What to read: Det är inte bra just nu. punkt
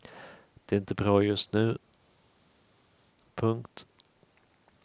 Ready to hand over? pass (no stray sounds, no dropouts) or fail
pass